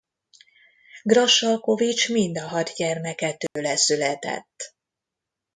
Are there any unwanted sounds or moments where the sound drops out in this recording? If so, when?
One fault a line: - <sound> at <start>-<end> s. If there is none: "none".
- dropout at 3.5-3.6 s